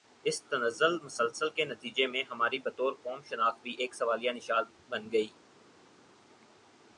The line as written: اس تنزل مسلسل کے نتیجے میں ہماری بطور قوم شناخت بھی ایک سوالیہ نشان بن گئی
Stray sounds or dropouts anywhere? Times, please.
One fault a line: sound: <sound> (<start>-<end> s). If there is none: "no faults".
no faults